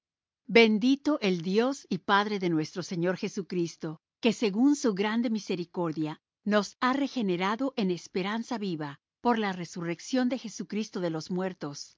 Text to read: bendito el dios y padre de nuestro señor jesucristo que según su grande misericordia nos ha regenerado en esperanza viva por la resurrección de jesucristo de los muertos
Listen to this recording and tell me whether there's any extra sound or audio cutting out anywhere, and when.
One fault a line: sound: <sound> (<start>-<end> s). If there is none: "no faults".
no faults